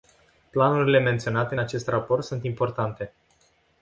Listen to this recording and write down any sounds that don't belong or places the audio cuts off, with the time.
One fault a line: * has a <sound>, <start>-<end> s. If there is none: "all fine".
all fine